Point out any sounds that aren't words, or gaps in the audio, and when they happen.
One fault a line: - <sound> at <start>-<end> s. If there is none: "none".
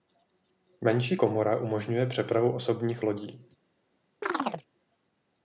- chirp at 4.2-4.7 s